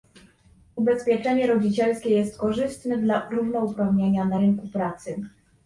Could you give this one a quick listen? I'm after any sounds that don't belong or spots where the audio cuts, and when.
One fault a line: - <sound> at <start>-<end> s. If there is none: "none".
none